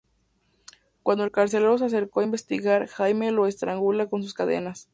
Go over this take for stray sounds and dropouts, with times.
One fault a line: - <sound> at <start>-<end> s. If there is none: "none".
none